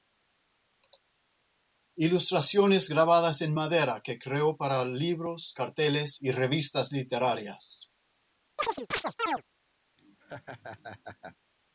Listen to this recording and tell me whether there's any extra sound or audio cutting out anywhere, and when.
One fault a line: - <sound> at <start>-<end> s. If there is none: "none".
- chirp at 8.6-9.4 s
- laugh at 10.0-11.4 s